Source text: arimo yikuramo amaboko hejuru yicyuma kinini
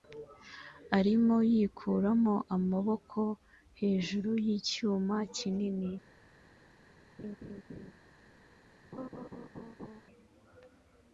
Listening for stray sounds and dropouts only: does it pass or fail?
fail